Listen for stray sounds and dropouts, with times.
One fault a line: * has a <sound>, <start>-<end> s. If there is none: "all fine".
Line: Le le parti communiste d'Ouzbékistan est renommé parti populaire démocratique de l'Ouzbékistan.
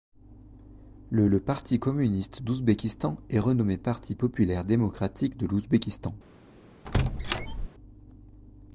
* has a squeak, 6.9-7.7 s